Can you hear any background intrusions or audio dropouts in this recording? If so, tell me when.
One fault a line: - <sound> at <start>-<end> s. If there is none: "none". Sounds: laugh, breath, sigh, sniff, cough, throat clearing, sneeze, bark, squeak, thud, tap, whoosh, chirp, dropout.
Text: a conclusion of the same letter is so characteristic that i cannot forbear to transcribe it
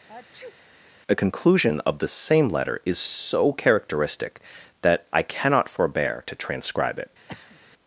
- sneeze at 0.1-0.6 s
- throat clearing at 7.3-7.6 s